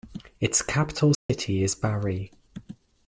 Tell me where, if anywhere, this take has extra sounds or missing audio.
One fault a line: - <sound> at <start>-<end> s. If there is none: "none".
- dropout at 1.1-1.3 s